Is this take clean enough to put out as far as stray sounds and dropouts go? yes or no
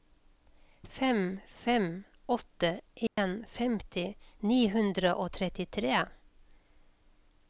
no